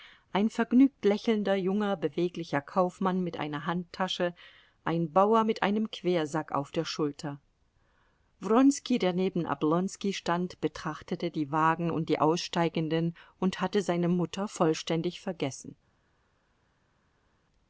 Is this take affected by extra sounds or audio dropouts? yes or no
no